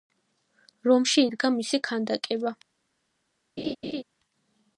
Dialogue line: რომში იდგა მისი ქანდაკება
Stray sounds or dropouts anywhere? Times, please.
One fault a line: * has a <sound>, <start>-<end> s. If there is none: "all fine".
* has a laugh, 3.6-4.0 s